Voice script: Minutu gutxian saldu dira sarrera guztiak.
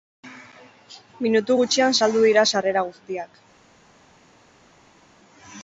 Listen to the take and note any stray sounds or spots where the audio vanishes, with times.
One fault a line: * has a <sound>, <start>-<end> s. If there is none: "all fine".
all fine